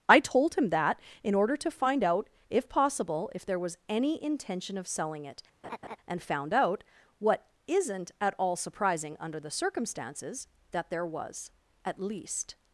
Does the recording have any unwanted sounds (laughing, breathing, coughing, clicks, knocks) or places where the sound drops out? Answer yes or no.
yes